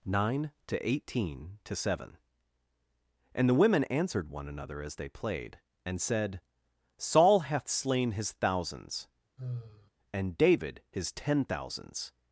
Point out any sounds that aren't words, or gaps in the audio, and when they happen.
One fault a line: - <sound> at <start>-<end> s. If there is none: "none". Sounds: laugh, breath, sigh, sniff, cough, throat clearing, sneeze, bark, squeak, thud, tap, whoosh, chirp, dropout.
- sigh at 9.4-9.9 s